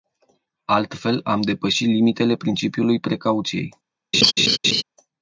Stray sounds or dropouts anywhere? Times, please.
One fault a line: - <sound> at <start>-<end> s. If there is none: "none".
- laugh at 4.1-4.8 s